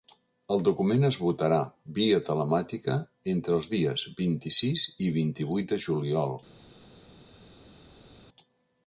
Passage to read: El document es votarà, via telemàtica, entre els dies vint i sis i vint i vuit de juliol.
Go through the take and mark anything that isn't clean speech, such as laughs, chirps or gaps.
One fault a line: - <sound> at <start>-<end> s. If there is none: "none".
none